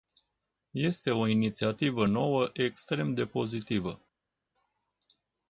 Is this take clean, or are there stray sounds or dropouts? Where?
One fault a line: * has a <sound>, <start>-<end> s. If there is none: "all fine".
all fine